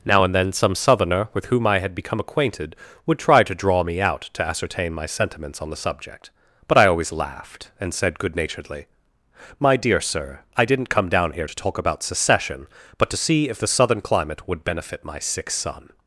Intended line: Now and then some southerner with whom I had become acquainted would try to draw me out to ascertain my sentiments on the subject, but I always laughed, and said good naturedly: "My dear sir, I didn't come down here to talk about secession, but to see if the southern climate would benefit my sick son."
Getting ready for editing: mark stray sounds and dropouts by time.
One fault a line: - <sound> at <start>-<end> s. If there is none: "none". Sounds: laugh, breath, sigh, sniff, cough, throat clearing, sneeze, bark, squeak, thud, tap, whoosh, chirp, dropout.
none